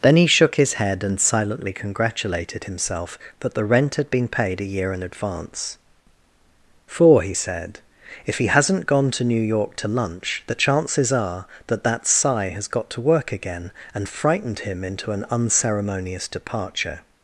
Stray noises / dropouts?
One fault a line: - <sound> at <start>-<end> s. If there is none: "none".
none